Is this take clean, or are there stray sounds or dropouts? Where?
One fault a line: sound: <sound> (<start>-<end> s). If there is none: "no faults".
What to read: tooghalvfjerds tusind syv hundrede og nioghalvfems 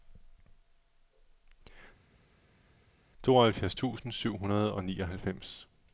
no faults